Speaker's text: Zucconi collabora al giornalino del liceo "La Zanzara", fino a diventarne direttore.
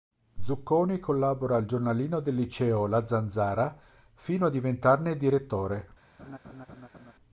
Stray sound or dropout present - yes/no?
yes